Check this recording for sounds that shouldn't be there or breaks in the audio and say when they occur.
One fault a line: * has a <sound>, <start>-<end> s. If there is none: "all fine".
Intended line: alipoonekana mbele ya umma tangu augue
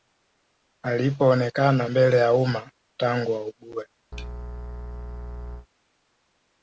* has a sneeze, 4.1-5.7 s